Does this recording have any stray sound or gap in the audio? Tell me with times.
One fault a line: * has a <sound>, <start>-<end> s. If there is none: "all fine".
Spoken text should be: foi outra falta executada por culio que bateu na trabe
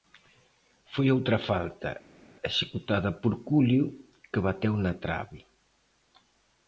all fine